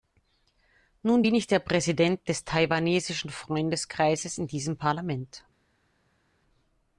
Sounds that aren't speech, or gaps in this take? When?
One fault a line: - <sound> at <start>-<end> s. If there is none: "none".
none